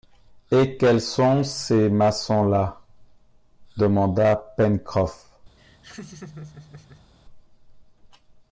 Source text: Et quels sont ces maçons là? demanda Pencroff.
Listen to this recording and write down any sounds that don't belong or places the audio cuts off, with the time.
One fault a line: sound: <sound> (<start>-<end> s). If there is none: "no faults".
sound: laugh (5.6-7.1 s)